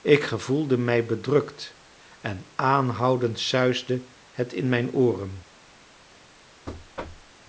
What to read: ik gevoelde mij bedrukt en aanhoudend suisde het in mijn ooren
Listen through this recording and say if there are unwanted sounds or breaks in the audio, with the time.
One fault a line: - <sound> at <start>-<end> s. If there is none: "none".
- thud at 6.7-7.3 s